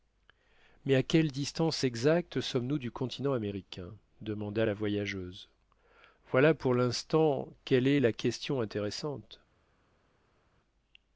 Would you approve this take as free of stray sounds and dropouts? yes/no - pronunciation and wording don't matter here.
yes